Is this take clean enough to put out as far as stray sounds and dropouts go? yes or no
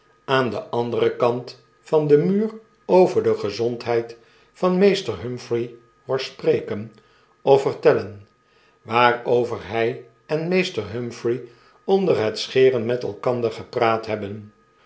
yes